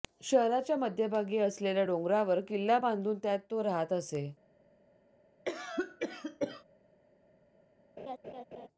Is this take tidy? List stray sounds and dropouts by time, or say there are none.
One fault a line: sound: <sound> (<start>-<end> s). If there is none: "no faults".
sound: cough (5.5-6.6 s)
sound: laugh (8.0-8.7 s)